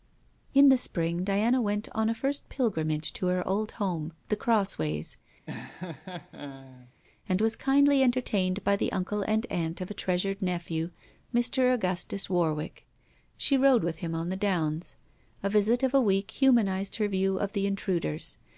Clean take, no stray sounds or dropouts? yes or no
no